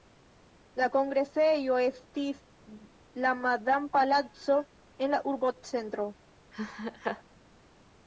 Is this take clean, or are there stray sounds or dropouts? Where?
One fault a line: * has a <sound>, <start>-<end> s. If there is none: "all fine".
* has a laugh, 6.5-7.2 s